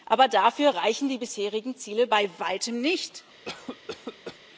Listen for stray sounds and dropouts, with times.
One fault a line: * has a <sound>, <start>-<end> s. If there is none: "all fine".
* has a cough, 3.5-4.4 s